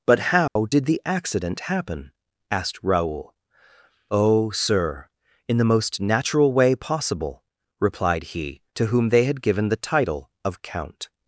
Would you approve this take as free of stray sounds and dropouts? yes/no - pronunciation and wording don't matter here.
no